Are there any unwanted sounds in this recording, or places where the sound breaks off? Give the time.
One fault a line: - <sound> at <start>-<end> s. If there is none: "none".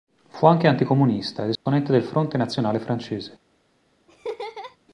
- dropout at 1.5-1.7 s
- laugh at 4.1-4.8 s